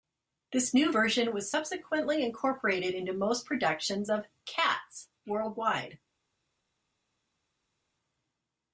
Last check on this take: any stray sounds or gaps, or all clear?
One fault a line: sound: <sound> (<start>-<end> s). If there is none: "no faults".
no faults